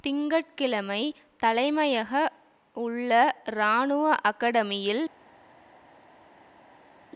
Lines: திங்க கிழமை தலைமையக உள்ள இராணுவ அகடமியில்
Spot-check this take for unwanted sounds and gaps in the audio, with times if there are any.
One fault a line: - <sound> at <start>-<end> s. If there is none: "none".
none